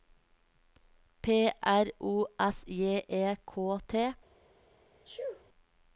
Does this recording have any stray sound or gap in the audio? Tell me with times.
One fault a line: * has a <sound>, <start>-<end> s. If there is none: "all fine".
* has a sneeze, 5.1-5.4 s